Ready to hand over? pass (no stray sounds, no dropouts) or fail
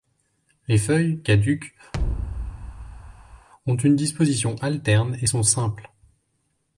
fail